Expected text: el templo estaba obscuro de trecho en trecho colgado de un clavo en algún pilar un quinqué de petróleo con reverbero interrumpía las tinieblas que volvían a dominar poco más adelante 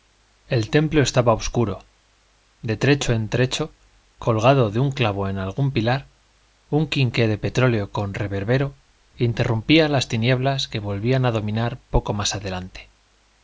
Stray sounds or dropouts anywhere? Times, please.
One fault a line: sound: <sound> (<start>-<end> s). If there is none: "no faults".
no faults